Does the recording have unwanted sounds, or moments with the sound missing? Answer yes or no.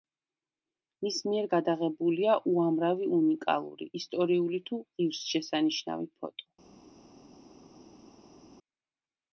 no